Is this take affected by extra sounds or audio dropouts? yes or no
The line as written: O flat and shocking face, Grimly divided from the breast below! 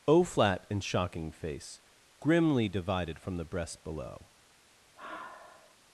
yes